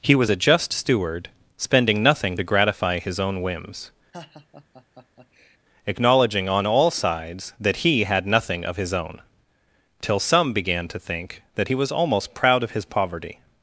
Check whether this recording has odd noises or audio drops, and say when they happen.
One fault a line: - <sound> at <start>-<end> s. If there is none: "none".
- laugh at 4.1-5.6 s